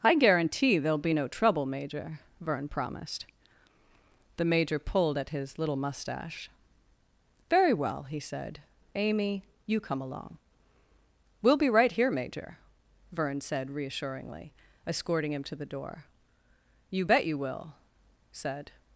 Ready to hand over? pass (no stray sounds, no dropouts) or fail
pass